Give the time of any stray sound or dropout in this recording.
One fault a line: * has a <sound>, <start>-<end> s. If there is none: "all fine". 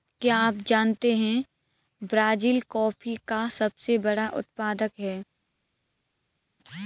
all fine